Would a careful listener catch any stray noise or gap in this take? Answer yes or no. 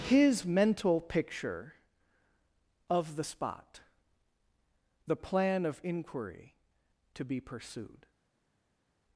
no